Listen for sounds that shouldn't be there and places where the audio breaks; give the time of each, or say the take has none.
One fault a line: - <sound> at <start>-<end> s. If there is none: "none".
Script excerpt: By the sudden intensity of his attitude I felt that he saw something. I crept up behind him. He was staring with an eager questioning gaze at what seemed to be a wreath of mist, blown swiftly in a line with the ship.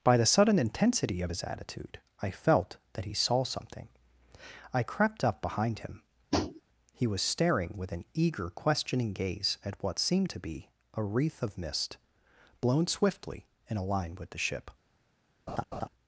- tap at 6.3-6.6 s
- laugh at 15.5-15.9 s